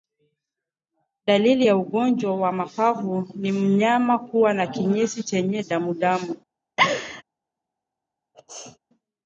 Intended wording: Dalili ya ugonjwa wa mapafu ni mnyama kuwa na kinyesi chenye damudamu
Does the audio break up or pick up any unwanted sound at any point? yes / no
yes